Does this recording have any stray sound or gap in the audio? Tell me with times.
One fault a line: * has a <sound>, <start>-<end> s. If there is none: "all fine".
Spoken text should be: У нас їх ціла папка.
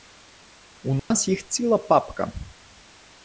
* has a dropout, 1.0-1.1 s